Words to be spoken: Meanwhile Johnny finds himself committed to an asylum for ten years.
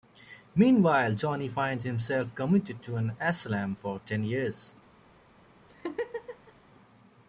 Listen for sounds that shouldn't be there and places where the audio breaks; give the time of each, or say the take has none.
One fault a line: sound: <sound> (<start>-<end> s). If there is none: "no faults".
sound: laugh (5.7-6.5 s)